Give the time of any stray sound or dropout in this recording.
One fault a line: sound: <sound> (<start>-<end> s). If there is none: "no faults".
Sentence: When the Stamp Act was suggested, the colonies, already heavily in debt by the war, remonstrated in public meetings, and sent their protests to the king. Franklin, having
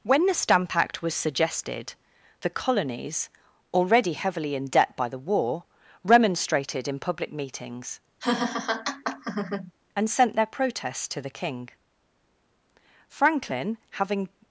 sound: laugh (8.2-9.7 s)